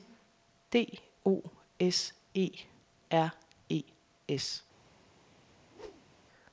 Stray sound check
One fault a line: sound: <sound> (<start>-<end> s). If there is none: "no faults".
sound: whoosh (5.5-6.2 s)